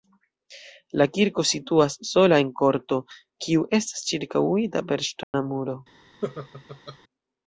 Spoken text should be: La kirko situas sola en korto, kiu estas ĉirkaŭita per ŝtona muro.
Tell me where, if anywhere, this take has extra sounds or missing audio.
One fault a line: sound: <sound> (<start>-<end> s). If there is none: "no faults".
sound: dropout (5.2-5.3 s)
sound: laugh (6.2-7.0 s)